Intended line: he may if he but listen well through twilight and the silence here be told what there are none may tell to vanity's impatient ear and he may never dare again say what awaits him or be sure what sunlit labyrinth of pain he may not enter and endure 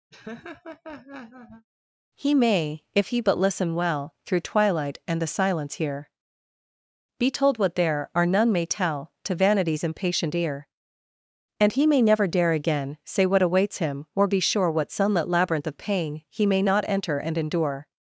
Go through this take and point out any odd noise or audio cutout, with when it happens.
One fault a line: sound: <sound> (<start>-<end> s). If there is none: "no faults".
sound: laugh (0.1-1.7 s)